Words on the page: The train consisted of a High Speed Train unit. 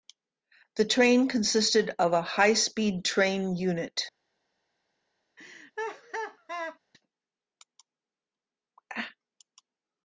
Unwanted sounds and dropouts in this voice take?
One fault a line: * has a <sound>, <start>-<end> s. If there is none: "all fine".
* has a laugh, 5.4-6.8 s